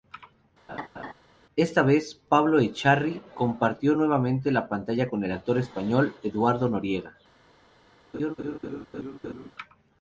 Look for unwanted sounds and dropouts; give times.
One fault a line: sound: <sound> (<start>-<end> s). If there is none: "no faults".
sound: laugh (0.7-1.1 s)
sound: laugh (8.1-9.5 s)